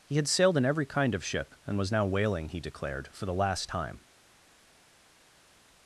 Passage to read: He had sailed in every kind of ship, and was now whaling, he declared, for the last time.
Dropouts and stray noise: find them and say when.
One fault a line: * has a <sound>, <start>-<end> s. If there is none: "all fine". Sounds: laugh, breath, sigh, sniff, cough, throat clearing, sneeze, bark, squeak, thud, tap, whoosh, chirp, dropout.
all fine